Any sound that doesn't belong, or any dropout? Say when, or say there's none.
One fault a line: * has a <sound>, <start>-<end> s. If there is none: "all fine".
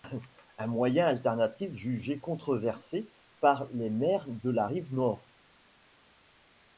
all fine